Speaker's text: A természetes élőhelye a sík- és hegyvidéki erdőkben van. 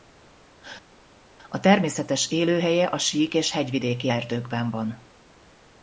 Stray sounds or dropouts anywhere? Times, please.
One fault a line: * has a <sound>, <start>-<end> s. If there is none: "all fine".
all fine